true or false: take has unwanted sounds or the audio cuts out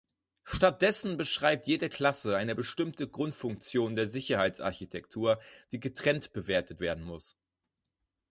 false